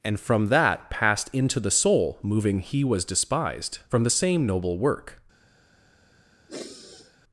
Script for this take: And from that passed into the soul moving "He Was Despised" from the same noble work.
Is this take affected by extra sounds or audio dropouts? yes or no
yes